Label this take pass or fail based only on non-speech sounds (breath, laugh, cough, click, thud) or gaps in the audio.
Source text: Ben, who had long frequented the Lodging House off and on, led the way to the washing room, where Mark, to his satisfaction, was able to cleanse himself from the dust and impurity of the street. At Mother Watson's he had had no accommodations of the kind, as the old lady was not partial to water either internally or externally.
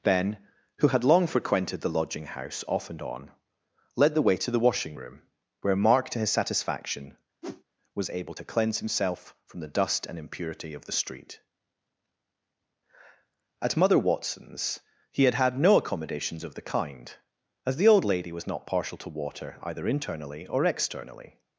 fail